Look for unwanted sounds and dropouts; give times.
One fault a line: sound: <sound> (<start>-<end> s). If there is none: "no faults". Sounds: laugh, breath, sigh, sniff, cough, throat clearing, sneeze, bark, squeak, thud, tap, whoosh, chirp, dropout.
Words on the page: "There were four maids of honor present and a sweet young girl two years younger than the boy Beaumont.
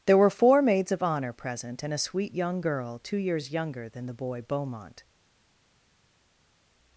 no faults